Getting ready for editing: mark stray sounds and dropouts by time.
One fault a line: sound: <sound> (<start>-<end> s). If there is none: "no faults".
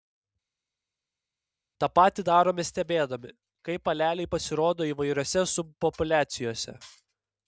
no faults